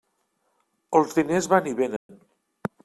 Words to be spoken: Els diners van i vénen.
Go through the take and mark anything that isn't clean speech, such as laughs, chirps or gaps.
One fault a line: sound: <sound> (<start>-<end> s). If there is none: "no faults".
sound: dropout (2.0-2.1 s)